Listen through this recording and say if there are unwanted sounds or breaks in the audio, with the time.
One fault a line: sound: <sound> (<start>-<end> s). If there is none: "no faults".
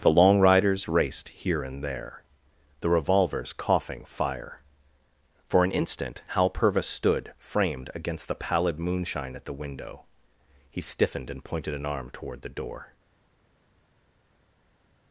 no faults